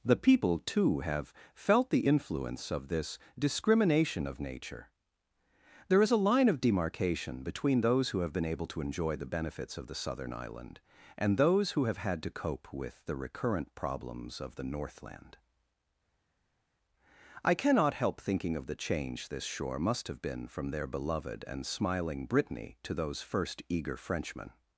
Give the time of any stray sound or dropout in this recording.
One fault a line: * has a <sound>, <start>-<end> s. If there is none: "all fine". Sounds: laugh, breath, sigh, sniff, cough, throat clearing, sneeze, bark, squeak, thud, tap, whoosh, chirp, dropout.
all fine